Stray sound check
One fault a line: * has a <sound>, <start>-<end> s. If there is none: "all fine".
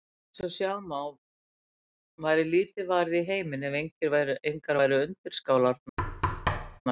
* has a thud, 6.0-6.8 s